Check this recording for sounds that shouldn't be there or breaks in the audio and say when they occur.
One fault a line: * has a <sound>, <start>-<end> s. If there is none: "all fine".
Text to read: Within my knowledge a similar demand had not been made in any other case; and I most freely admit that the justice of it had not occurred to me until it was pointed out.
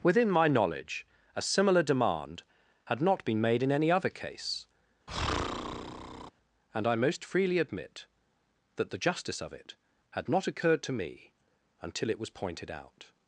* has a breath, 5.1-6.3 s